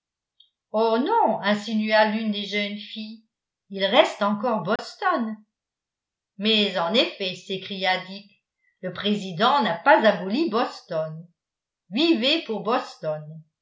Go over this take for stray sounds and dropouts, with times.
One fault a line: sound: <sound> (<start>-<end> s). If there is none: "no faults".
sound: dropout (4.8-4.8 s)